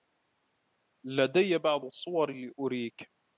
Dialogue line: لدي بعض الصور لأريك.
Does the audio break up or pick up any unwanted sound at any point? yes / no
no